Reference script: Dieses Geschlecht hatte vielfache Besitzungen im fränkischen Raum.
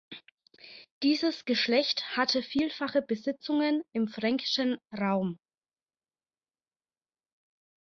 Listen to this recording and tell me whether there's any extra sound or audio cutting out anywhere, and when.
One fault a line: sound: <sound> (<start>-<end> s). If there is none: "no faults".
no faults